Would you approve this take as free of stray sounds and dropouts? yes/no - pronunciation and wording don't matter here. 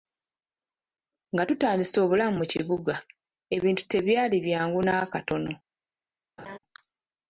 no